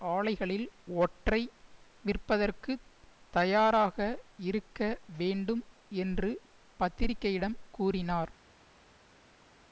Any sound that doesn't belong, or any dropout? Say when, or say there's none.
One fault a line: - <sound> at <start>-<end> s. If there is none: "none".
none